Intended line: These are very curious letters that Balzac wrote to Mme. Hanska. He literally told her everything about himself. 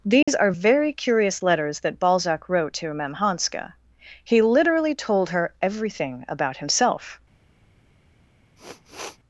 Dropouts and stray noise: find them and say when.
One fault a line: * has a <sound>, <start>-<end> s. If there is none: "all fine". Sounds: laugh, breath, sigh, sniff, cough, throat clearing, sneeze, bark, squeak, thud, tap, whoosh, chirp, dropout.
* has a dropout, 0.2-0.3 s
* has a sniff, 8.6-9.2 s